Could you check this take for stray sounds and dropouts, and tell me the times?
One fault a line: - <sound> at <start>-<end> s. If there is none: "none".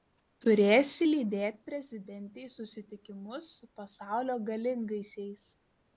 none